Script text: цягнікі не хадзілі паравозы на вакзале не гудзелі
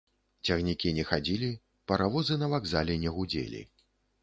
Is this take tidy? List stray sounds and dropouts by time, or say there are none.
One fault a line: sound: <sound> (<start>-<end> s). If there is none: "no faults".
no faults